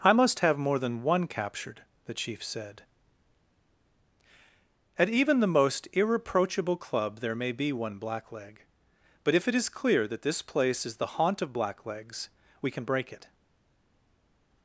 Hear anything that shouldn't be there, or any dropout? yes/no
no